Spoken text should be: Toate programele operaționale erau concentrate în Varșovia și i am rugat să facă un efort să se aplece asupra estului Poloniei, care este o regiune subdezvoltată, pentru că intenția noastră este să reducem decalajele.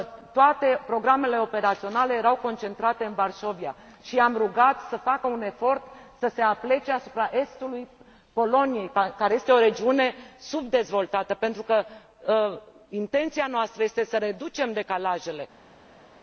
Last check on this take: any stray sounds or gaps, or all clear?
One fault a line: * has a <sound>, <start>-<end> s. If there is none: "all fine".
all fine